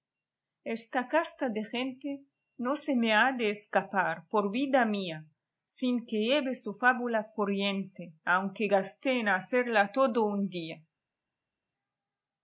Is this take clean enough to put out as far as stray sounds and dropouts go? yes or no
yes